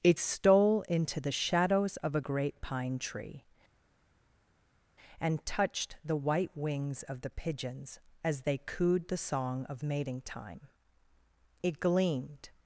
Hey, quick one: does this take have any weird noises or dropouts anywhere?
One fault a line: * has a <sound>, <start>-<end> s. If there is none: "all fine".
all fine